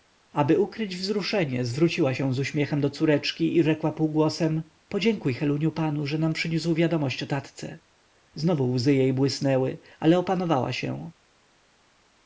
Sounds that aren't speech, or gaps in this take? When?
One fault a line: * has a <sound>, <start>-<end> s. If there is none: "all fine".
all fine